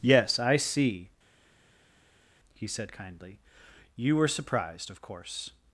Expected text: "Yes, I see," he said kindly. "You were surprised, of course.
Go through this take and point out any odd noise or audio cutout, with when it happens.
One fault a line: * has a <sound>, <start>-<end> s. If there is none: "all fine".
all fine